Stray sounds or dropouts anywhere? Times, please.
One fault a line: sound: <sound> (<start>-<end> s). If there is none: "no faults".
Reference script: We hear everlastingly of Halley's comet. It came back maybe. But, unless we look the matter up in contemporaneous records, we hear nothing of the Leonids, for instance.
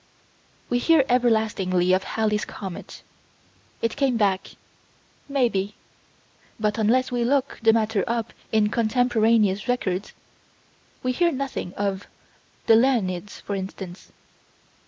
no faults